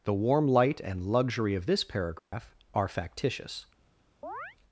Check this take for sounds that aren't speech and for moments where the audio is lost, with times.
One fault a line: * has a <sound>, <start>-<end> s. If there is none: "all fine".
* has a dropout, 2.2-2.3 s
* has a chirp, 4.2-4.6 s